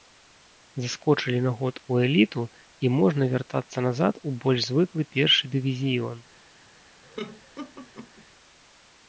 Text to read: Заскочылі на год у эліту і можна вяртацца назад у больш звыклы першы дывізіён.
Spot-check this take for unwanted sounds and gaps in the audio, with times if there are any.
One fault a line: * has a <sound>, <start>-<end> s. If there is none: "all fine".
* has a laugh, 7.0-8.2 s